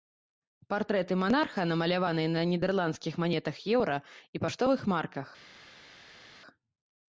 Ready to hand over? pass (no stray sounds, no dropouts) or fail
pass